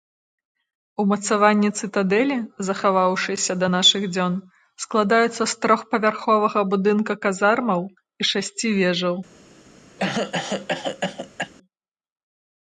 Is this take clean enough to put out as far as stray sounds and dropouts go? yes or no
no